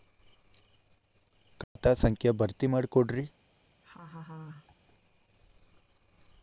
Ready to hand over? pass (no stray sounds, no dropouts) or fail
fail